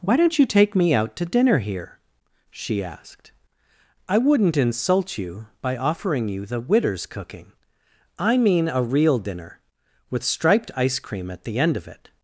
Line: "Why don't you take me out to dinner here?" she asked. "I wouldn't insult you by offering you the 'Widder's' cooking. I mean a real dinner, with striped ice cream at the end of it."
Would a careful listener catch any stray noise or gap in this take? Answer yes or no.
no